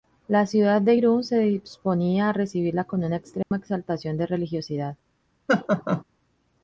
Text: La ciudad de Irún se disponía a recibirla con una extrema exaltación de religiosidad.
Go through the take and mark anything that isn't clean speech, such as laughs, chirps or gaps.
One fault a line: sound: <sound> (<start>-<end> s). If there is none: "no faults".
sound: dropout (3.4-3.5 s)
sound: laugh (5.5-6.0 s)